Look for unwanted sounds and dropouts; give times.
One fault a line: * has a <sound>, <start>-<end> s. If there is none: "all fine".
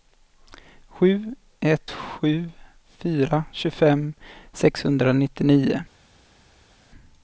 all fine